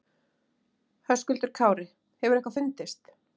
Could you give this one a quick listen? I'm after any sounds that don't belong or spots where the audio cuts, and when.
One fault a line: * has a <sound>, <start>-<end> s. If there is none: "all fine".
all fine